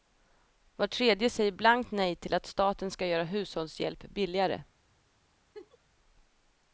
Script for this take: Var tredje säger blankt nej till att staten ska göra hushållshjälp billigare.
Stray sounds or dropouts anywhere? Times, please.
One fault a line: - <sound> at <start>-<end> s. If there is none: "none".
- laugh at 5.5-5.8 s